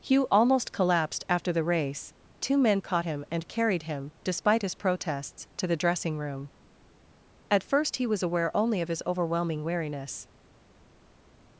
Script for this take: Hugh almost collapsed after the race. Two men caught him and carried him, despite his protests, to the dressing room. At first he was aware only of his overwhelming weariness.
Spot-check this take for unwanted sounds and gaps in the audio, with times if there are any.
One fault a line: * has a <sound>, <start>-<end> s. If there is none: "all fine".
all fine